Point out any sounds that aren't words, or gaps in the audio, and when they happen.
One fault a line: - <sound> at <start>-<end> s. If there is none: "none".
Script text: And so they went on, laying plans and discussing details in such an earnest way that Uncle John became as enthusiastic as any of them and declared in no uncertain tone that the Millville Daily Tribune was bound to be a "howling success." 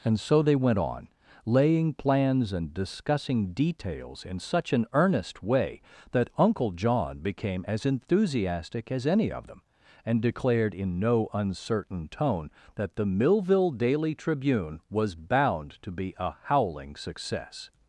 none